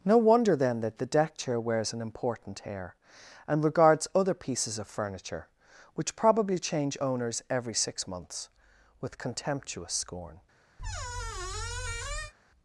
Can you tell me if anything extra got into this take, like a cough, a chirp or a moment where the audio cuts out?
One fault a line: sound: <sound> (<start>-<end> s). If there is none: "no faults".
sound: squeak (10.8-12.3 s)